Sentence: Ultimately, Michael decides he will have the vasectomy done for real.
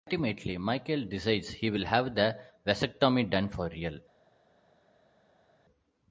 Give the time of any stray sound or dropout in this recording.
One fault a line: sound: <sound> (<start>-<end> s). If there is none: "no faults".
no faults